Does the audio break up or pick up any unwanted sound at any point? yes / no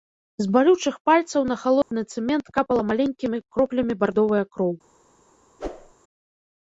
yes